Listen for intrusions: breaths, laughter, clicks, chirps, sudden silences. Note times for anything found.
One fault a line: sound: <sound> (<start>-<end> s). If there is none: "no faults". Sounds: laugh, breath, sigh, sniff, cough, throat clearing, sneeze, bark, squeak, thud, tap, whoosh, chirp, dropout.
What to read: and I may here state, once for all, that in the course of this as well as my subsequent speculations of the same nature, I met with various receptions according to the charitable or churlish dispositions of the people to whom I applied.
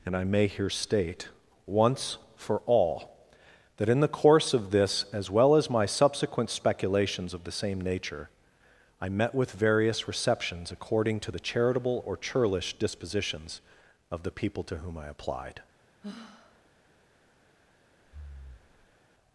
sound: sigh (16.0-16.7 s)
sound: breath (18.0-19.0 s)